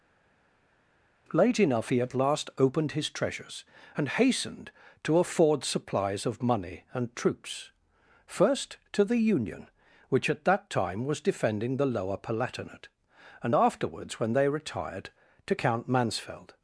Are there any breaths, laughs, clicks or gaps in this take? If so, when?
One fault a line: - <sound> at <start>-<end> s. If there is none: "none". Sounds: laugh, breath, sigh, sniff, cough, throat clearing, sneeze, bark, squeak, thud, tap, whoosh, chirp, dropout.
none